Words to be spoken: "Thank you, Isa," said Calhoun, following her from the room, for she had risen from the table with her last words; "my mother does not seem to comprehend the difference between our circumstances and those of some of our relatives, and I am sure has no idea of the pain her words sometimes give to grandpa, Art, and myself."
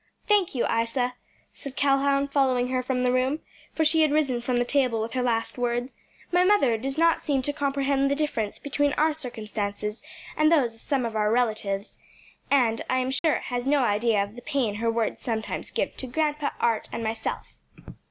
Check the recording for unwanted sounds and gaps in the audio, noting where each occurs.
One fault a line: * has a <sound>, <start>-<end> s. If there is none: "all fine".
* has a dropout, 13.2-13.2 s